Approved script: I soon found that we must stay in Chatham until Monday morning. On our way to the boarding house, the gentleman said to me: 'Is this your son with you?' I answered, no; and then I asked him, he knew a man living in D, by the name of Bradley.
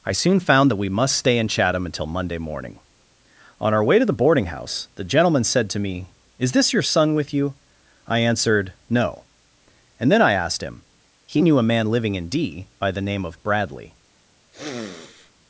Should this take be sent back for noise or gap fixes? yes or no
yes